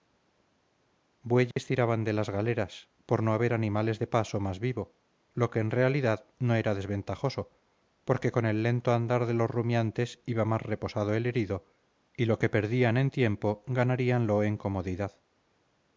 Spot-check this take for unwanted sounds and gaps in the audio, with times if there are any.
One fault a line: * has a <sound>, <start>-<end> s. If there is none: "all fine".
* has a dropout, 1.5-1.6 s